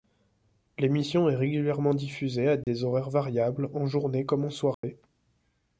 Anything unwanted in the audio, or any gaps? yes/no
yes